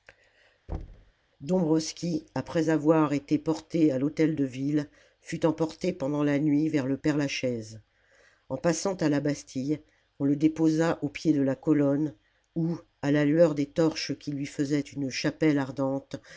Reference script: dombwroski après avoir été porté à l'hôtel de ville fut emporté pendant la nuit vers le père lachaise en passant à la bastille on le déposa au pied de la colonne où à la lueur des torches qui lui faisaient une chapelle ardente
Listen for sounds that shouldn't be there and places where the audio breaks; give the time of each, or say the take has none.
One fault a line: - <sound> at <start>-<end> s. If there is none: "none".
- thud at 0.7-1.1 s